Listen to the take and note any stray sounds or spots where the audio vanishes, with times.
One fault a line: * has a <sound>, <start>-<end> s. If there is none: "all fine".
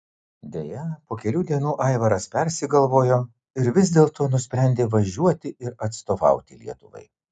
all fine